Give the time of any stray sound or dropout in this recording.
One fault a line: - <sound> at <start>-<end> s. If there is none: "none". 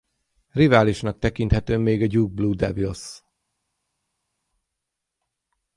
none